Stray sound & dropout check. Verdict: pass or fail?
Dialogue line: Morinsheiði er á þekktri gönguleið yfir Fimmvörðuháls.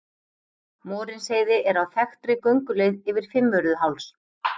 pass